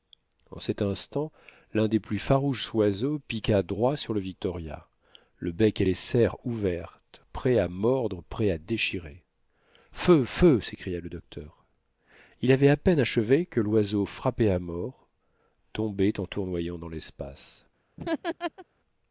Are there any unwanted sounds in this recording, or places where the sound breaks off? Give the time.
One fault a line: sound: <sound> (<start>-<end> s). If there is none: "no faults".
sound: laugh (18.0-18.6 s)